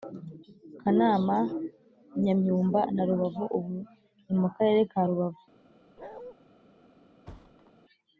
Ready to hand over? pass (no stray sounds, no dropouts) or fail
fail